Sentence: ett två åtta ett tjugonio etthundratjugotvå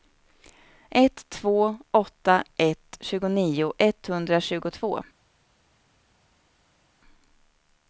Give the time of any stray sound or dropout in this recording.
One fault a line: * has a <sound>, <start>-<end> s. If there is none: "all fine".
all fine